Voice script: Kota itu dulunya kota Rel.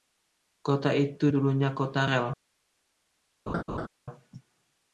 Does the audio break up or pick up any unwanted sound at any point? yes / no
yes